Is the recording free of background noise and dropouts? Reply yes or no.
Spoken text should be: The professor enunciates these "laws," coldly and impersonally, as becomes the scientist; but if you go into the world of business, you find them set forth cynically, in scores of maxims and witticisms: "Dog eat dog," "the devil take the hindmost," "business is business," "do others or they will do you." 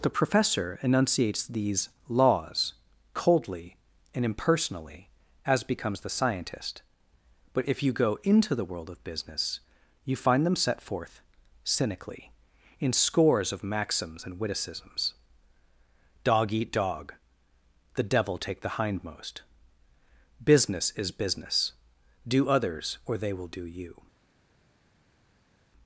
yes